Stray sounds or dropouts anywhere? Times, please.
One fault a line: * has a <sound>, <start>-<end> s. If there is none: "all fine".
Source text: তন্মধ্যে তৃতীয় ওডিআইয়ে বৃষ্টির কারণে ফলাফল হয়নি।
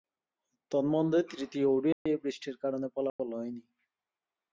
* has a dropout, 1.9-2.1 s
* has a dropout, 3.1-3.2 s